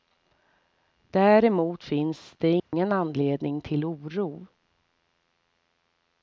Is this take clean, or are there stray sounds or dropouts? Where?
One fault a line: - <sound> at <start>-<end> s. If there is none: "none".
- dropout at 2.6-2.7 s